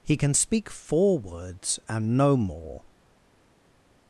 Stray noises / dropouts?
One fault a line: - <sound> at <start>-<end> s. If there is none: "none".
none